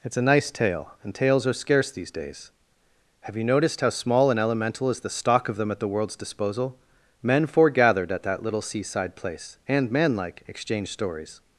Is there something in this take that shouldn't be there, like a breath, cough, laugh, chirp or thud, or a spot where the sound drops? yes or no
no